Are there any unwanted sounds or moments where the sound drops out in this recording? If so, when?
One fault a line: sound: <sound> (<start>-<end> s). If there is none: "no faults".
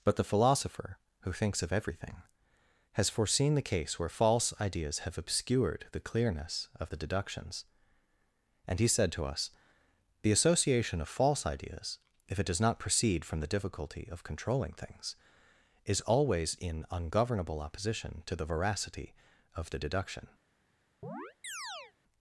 sound: chirp (21.0-21.9 s)